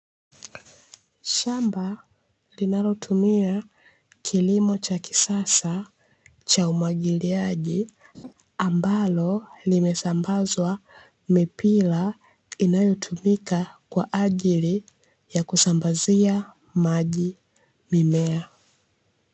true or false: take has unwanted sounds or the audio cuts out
true